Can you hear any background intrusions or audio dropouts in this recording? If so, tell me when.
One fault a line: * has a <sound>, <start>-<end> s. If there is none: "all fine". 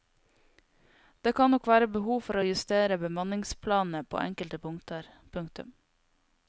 all fine